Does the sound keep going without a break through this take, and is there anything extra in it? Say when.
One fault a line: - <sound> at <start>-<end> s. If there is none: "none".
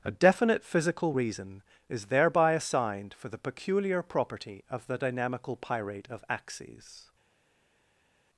none